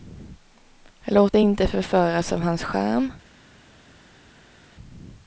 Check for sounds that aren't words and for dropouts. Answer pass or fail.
pass